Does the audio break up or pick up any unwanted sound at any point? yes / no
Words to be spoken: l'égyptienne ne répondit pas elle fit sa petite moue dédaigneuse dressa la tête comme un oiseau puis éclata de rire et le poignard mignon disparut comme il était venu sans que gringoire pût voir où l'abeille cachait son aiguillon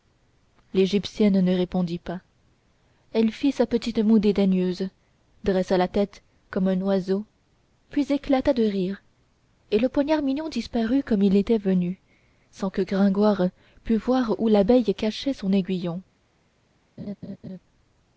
yes